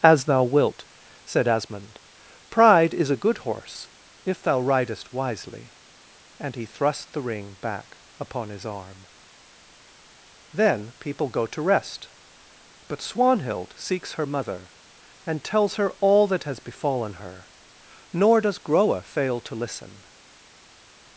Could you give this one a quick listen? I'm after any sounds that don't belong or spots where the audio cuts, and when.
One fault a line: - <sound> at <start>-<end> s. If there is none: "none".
none